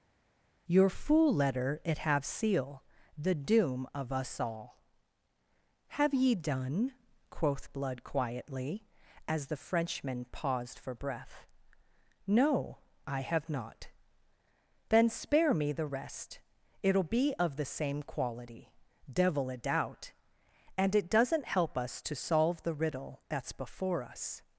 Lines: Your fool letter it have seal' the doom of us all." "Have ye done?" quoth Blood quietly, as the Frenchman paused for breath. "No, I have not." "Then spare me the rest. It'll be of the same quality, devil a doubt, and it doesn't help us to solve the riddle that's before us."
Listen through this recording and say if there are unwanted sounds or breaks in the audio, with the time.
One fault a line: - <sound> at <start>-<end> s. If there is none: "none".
none